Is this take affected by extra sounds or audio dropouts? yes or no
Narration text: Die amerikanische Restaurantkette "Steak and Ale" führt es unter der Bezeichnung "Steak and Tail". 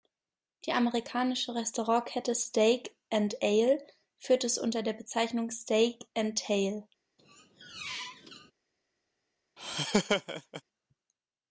yes